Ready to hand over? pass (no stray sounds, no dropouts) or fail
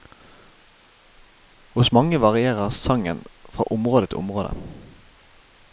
pass